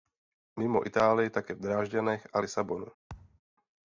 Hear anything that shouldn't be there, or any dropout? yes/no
yes